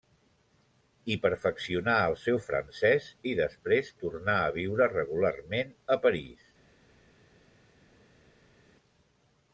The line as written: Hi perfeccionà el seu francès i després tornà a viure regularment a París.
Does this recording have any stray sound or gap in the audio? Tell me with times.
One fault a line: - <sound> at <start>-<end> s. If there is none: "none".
none